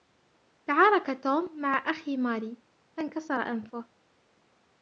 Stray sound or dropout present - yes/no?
no